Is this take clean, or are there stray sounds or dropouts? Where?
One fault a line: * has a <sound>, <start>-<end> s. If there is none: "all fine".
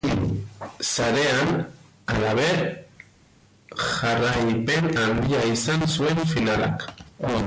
all fine